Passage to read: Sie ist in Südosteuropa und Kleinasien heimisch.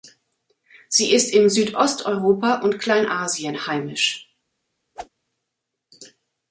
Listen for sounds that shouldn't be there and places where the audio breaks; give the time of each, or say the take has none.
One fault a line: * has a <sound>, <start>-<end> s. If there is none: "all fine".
* has a whoosh, 4.9-5.1 s